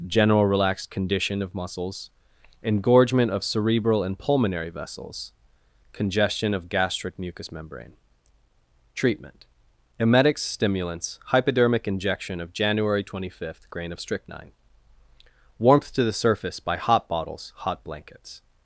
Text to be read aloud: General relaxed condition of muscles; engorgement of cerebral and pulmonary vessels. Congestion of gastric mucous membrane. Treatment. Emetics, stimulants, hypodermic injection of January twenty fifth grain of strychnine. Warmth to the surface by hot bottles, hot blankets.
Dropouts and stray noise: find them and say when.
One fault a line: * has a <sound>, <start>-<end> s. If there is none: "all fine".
all fine